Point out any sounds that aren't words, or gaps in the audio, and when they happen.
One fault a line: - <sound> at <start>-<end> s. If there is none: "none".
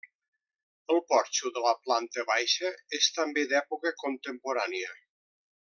none